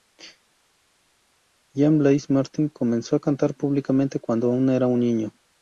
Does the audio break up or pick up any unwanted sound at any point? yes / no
no